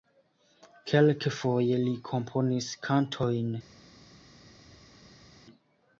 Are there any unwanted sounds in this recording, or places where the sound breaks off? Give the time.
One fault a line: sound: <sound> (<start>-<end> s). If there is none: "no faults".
no faults